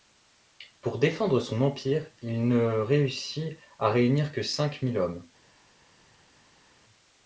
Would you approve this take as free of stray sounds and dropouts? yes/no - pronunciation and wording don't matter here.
yes